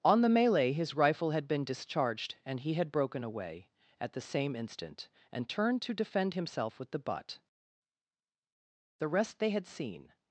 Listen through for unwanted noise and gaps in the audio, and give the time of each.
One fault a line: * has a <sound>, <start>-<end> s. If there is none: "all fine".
all fine